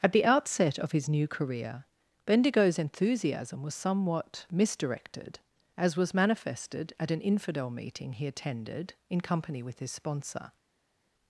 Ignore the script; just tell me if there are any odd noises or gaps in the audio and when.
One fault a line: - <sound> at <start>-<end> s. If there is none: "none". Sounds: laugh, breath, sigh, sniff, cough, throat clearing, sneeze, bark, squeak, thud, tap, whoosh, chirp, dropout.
none